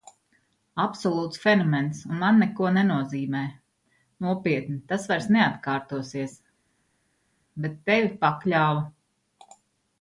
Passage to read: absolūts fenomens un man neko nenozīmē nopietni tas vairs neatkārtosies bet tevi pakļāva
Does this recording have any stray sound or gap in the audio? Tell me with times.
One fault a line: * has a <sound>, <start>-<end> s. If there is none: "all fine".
all fine